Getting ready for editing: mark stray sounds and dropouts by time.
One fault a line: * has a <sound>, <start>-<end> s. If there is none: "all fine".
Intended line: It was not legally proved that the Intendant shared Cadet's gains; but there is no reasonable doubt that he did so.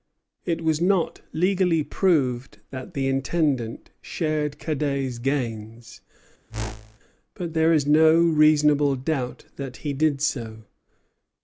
* has a whoosh, 6.5-7.0 s